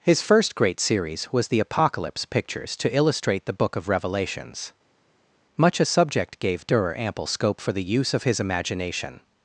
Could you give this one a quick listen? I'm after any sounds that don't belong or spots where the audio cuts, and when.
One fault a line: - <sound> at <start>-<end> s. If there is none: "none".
none